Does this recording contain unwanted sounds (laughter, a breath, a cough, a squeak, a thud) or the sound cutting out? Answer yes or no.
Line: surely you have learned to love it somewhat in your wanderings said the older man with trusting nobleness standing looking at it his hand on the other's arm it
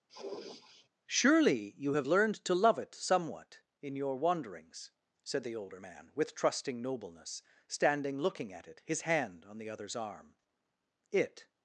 yes